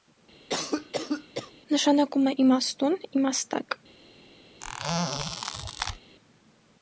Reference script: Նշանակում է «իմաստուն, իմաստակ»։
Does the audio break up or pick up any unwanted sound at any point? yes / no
yes